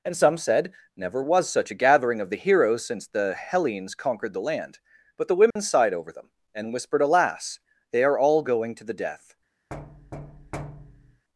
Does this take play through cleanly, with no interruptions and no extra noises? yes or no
no